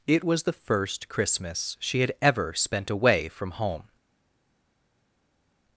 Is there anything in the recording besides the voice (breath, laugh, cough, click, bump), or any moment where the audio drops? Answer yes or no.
no